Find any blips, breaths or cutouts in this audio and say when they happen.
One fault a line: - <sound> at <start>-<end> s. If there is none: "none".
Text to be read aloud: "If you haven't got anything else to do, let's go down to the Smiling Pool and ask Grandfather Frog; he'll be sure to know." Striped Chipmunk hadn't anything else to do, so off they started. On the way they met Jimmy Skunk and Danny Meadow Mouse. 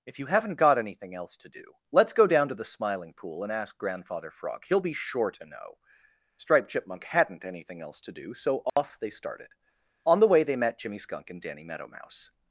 - dropout at 8.7-8.8 s